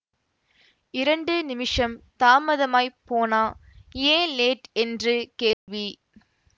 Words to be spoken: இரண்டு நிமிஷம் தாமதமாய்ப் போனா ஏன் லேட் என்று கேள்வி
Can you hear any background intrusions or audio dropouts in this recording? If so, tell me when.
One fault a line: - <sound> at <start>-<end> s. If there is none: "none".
- dropout at 5.5-5.7 s